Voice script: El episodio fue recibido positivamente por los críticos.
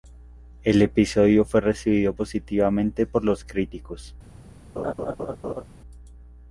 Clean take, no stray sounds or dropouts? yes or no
no